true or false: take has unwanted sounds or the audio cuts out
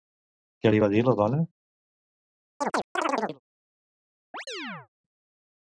true